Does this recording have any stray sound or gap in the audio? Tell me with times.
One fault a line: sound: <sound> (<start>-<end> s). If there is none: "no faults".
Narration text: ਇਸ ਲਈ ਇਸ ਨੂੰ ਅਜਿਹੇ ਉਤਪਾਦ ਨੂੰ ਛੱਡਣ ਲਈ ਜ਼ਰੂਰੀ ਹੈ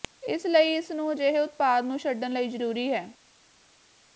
no faults